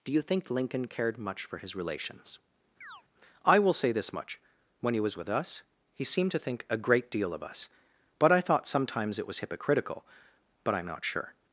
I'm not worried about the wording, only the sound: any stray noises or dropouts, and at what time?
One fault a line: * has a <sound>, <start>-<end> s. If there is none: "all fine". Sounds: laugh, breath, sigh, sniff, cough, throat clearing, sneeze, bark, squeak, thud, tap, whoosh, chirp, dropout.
* has a chirp, 2.8-3.0 s